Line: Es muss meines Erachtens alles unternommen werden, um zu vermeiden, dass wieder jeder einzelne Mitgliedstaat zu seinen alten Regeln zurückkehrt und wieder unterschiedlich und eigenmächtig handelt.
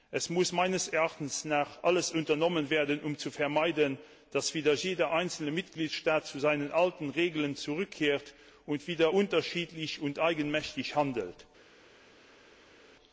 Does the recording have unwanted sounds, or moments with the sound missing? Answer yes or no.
no